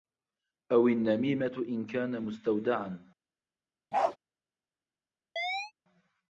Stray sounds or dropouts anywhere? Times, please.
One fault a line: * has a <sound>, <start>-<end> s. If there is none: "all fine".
* has a bark, 3.9-4.2 s
* has a chirp, 5.4-5.7 s